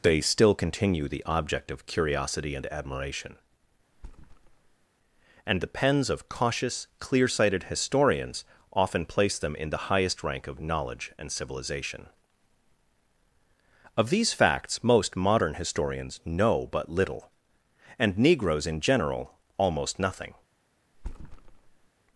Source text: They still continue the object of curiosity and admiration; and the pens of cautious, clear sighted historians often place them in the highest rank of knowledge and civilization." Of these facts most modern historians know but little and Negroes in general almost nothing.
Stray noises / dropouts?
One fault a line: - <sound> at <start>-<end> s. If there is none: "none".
- thud at 3.9-4.9 s
- thud at 20.9-21.9 s